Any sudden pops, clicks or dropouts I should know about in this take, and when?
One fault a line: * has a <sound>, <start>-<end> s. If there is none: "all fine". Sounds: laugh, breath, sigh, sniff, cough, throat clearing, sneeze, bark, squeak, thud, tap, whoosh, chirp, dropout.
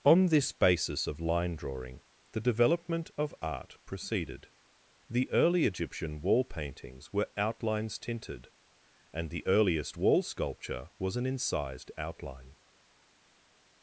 all fine